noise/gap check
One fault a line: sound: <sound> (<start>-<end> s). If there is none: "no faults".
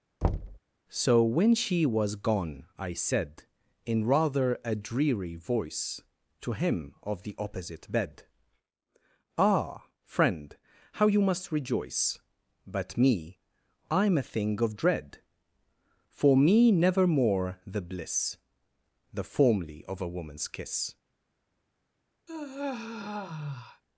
sound: thud (0.2-0.6 s)
sound: sigh (22.3-23.8 s)